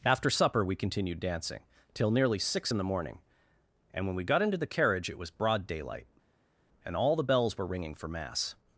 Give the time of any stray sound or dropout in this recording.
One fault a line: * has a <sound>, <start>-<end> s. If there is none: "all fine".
all fine